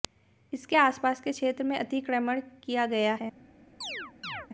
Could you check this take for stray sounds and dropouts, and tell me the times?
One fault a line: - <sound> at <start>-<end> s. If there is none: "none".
- chirp at 3.8-4.5 s